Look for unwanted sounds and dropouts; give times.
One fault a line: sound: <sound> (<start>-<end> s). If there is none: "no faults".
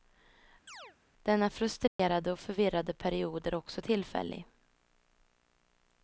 sound: chirp (0.7-1.0 s)
sound: dropout (1.9-2.0 s)